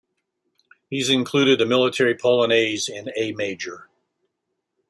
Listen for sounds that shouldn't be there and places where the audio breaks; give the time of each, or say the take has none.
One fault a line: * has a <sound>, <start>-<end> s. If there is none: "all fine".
all fine